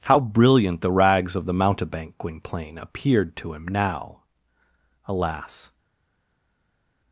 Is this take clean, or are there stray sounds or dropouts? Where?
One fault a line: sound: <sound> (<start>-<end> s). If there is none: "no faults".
no faults